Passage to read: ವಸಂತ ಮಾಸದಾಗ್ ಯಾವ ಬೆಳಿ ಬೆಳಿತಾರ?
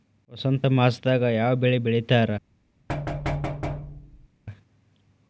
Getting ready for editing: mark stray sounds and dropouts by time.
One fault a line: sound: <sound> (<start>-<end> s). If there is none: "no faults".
sound: thud (2.9-4.3 s)